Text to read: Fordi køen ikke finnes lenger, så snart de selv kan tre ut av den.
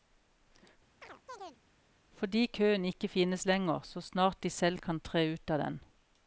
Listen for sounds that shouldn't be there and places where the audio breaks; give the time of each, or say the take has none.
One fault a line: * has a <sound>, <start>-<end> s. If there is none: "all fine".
* has a chirp, 1.0-1.6 s